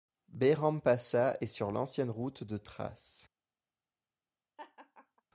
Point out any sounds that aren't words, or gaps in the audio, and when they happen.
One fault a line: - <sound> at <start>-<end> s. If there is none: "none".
- laugh at 4.6-5.2 s